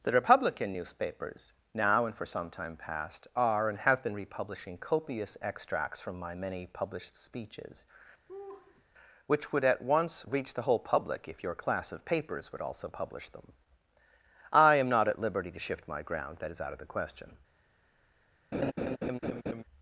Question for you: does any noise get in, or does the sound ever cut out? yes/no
yes